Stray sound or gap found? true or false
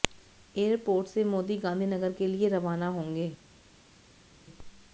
false